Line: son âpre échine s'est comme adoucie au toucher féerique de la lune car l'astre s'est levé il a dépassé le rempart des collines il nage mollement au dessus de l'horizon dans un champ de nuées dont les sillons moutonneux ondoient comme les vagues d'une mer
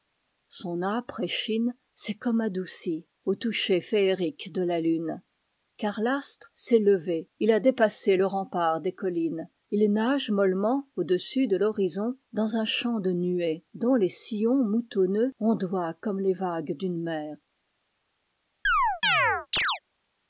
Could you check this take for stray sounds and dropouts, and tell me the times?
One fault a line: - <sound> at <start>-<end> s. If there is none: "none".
- chirp at 18.6-19.8 s